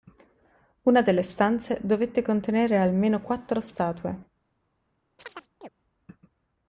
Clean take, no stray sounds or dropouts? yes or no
no